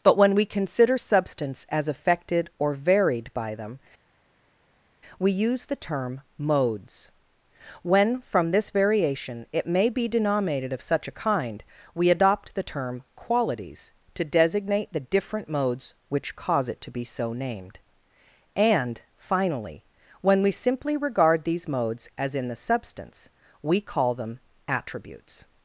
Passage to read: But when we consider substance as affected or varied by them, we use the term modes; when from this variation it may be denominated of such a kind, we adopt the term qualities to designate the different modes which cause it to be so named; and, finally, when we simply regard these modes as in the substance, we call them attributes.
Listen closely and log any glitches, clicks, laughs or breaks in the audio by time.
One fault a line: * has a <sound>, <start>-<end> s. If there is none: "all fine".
all fine